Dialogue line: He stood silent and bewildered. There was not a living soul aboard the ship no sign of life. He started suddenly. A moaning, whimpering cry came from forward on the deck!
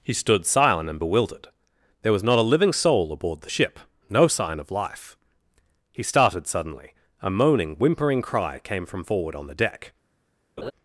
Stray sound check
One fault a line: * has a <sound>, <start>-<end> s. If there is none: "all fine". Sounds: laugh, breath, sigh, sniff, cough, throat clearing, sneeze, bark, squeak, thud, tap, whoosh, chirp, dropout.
* has a laugh, 10.6-10.7 s